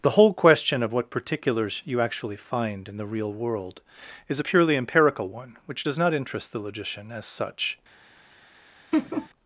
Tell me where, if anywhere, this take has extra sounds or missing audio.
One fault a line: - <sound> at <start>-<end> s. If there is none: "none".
- laugh at 8.9-9.3 s